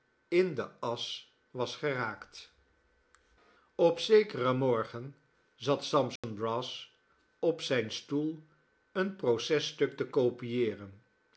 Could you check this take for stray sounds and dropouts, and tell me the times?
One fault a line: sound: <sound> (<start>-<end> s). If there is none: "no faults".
sound: dropout (6.2-6.2 s)